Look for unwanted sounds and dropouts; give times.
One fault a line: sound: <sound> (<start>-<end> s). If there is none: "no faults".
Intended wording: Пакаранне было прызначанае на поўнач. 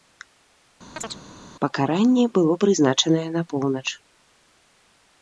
sound: chirp (1.0-1.2 s)